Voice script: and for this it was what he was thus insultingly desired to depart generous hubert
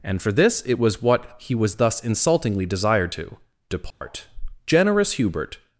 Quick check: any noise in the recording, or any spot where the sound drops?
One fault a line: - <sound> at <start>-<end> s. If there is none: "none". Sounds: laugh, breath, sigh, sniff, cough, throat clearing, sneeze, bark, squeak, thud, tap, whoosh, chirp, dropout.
- dropout at 3.9-4.0 s